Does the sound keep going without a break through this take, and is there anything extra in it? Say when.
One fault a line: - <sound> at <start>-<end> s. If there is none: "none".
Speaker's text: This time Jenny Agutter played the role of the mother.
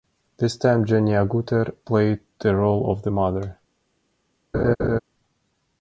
- laugh at 4.5-5.0 s